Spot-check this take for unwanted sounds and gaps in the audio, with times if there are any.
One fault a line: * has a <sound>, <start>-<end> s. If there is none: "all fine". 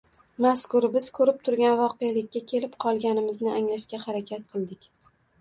all fine